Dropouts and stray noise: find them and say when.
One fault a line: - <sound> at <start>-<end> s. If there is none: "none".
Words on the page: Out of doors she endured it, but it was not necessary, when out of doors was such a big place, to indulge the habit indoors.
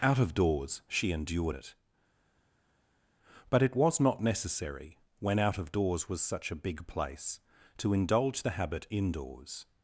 none